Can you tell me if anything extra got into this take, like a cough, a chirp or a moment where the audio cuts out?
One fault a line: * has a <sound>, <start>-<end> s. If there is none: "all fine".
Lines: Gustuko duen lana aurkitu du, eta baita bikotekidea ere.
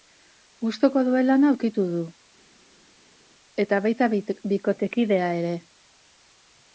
all fine